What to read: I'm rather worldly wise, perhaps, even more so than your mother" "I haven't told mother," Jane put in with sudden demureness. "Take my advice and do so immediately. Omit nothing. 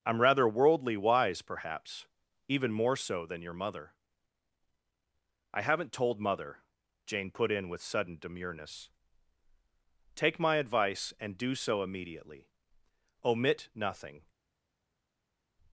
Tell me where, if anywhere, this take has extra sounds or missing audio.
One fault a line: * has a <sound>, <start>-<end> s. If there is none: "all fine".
all fine